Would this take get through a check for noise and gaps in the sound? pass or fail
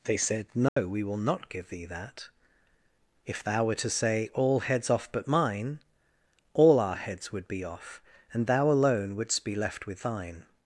fail